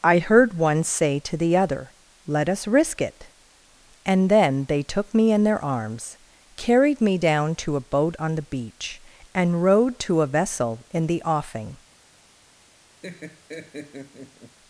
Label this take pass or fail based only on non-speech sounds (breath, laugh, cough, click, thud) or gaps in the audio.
fail